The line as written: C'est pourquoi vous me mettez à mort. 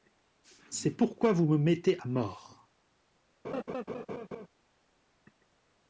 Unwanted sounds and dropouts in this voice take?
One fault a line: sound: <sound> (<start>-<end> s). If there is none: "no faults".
sound: laugh (3.4-4.5 s)